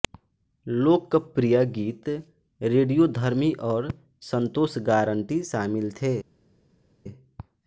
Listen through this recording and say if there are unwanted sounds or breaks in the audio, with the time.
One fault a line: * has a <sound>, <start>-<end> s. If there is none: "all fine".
all fine